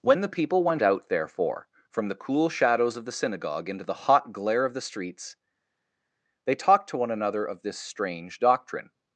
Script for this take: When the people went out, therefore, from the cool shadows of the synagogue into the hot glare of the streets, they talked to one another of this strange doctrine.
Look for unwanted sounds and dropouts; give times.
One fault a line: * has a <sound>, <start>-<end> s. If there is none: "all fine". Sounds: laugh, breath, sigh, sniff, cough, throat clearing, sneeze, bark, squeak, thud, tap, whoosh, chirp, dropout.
all fine